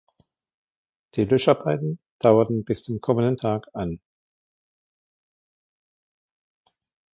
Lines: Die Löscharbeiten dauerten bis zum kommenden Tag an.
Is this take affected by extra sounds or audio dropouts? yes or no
no